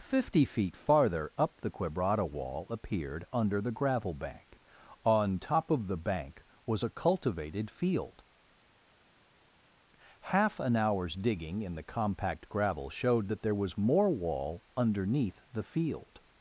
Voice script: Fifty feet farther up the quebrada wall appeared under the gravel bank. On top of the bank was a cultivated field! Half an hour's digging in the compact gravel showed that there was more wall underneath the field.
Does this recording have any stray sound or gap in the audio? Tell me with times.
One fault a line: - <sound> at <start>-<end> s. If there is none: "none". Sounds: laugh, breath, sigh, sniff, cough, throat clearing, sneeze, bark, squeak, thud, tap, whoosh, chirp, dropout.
none